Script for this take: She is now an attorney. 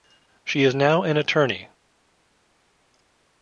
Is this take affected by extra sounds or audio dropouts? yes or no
no